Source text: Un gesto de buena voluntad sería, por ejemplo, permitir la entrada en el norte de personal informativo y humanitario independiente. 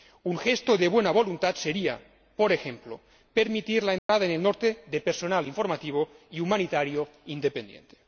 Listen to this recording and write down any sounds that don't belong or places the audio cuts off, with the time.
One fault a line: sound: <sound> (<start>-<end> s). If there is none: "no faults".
sound: dropout (4.0-4.1 s)